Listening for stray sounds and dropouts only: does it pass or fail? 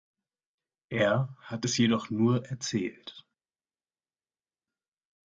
pass